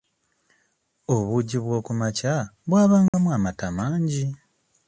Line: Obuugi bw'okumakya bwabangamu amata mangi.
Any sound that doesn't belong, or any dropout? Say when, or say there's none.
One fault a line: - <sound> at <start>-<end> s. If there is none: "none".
- dropout at 3.1-3.1 s